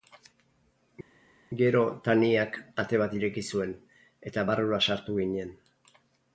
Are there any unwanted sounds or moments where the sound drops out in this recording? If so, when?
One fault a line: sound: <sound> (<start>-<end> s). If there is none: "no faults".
no faults